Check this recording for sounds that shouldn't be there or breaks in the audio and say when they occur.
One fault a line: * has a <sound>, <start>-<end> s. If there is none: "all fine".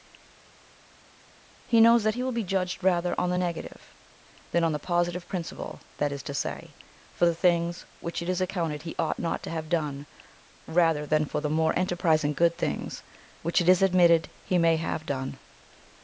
all fine